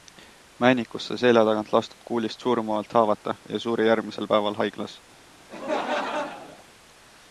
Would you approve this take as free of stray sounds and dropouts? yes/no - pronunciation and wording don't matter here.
no